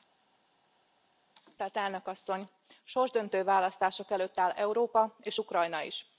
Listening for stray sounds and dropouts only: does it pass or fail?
pass